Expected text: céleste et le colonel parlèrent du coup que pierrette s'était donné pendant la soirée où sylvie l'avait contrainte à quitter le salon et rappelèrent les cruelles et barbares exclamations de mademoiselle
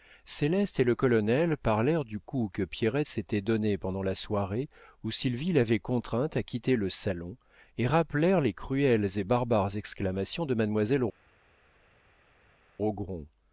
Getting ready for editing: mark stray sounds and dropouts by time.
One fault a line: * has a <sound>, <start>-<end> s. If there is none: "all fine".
all fine